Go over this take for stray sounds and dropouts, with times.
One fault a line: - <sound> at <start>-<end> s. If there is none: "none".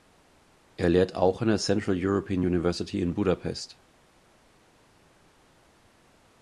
none